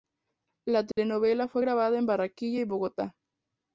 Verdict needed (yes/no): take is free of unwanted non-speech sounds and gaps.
no